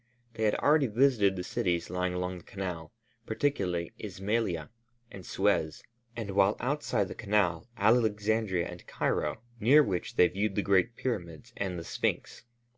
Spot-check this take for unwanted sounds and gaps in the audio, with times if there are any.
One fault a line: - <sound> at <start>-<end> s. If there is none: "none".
none